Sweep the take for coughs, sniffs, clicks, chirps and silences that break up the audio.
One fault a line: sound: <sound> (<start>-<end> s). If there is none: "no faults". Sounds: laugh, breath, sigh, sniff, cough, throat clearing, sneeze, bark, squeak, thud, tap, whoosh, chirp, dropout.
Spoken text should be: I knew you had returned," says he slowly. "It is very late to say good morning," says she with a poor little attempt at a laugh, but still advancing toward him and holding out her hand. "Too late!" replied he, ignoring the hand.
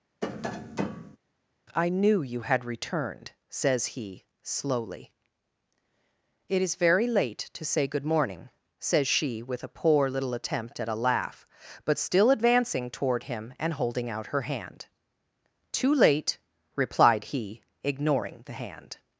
sound: tap (0.2-1.2 s)